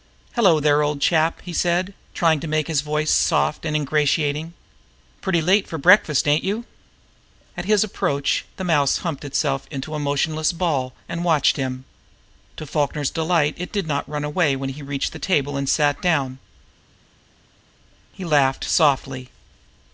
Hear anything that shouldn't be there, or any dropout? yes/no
no